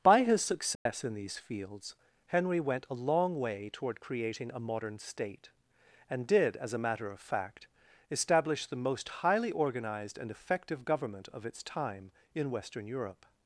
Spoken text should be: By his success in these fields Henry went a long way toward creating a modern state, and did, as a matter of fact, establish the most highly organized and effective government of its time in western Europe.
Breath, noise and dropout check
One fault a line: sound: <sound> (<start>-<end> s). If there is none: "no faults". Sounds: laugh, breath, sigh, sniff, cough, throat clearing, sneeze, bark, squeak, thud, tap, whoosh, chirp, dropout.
sound: dropout (0.7-0.9 s)